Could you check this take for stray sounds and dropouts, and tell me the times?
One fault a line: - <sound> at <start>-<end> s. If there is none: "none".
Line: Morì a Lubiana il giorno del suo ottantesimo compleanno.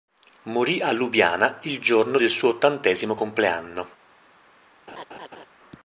- laugh at 4.9-5.5 s